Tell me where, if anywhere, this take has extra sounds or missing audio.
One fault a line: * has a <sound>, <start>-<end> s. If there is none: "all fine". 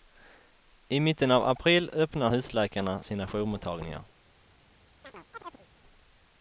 * has a chirp, 5.0-5.7 s